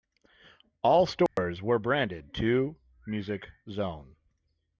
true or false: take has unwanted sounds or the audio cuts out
true